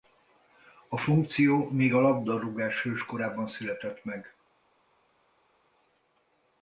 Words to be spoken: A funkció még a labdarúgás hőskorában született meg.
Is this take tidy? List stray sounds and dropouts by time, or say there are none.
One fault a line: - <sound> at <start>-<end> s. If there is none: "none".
none